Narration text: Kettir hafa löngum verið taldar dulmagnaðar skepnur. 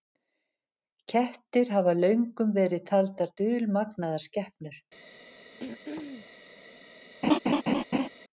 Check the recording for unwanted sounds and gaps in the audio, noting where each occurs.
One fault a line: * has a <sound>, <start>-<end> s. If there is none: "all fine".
* has a throat clearing, 5.6-6.3 s
* has a laugh, 7.2-8.1 s